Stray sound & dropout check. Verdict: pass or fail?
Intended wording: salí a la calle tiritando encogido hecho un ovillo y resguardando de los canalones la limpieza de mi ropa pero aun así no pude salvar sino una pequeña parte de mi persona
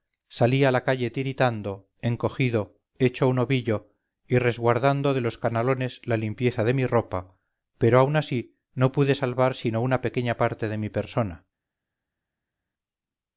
pass